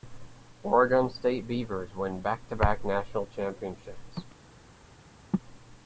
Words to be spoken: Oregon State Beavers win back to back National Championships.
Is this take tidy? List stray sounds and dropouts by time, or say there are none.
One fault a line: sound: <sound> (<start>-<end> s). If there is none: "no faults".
no faults